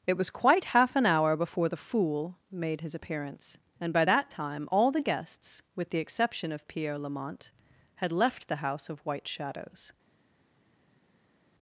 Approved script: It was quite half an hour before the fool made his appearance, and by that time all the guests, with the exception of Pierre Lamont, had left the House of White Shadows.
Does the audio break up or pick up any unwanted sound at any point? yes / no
no